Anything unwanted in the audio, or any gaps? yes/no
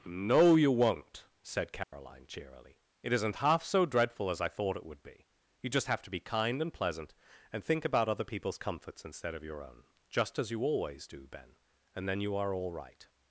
yes